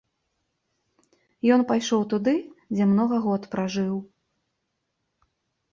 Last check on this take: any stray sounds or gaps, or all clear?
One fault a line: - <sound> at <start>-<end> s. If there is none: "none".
none